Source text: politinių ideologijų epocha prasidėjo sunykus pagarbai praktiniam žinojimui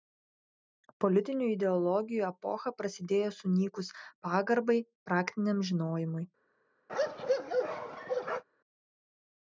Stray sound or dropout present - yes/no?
yes